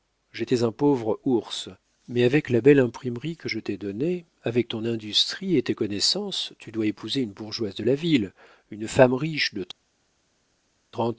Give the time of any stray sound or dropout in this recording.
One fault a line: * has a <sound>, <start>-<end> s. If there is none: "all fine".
all fine